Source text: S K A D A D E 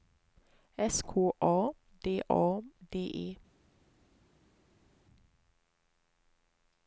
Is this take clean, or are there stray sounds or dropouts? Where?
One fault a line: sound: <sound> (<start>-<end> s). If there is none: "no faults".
no faults